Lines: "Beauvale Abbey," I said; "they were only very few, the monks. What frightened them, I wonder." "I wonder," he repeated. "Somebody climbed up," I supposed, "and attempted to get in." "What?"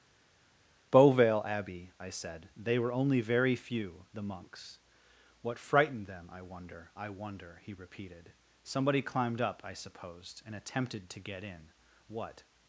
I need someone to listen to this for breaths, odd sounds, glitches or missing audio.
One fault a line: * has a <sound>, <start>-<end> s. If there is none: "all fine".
all fine